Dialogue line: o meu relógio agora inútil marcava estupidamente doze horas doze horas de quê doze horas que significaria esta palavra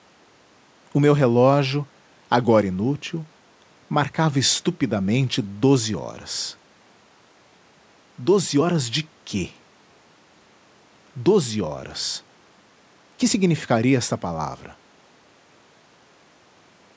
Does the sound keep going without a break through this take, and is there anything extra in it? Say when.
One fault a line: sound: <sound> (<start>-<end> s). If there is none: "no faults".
no faults